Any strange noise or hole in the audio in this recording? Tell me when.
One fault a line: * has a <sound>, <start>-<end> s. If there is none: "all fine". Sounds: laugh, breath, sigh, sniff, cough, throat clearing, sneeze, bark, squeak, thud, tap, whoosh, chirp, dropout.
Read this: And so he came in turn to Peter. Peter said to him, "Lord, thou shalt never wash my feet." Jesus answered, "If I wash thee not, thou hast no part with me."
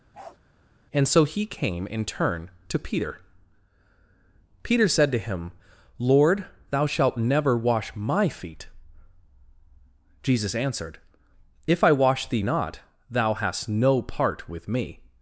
* has a bark, 0.1-0.4 s